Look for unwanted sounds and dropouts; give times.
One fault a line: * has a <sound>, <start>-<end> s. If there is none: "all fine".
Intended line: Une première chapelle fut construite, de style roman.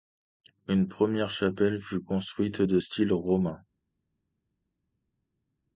all fine